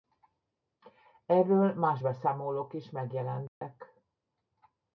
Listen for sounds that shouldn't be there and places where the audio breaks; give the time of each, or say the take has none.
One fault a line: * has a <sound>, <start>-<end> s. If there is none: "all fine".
* has a dropout, 3.5-3.6 s